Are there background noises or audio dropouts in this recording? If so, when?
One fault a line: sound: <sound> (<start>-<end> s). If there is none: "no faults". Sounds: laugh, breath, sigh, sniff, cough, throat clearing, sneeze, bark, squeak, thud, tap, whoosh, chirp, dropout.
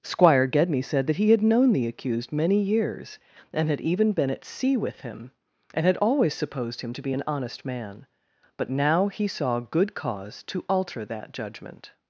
no faults